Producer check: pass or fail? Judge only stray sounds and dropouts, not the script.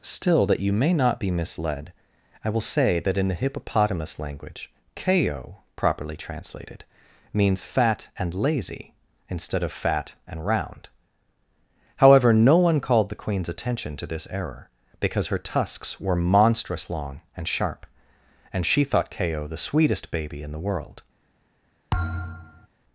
fail